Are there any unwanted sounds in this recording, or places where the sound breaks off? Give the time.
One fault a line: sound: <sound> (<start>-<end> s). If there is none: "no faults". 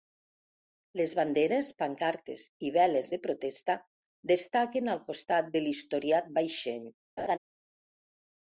sound: laugh (7.2-7.4 s)